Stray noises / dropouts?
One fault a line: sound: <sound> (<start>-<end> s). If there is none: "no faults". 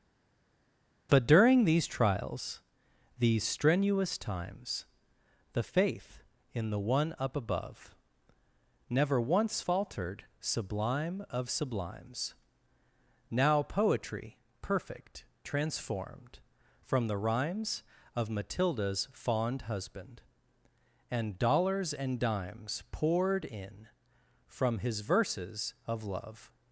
no faults